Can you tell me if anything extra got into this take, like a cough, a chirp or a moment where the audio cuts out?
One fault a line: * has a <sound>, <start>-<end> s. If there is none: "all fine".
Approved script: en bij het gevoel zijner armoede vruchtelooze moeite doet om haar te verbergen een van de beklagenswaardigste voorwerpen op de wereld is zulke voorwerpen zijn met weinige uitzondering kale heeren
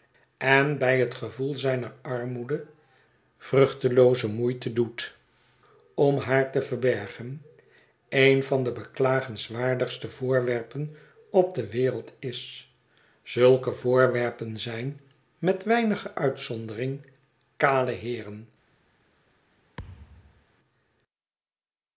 * has a thud, 19.8-20.5 s